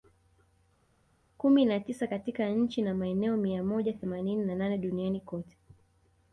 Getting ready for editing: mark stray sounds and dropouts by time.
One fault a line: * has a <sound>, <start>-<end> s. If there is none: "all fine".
all fine